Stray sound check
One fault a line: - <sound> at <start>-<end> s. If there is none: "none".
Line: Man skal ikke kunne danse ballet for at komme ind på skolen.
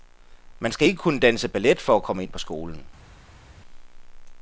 none